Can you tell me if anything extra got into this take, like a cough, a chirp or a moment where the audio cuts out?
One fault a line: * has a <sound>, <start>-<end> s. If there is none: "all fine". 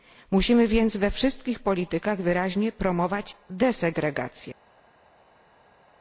all fine